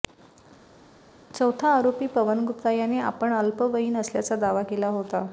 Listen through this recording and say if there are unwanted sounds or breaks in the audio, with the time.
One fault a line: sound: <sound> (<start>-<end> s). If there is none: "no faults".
no faults